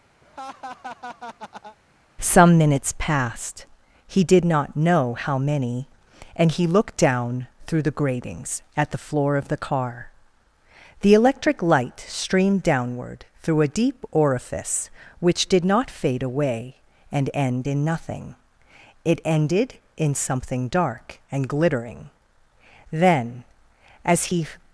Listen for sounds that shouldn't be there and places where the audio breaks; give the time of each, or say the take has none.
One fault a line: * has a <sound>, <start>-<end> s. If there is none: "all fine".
* has a laugh, 0.2-1.8 s